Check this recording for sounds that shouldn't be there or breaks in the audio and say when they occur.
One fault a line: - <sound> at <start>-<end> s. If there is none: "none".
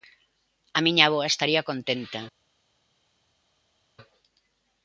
none